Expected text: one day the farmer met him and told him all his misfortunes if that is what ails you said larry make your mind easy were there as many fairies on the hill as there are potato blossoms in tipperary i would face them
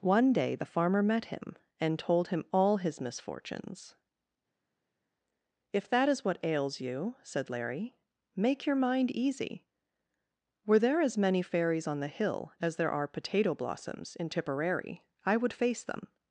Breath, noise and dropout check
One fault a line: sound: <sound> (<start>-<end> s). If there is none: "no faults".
no faults